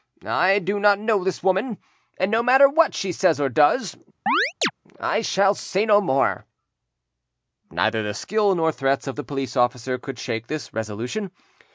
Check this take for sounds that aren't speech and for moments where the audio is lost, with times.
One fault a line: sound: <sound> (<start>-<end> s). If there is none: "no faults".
sound: chirp (4.3-4.7 s)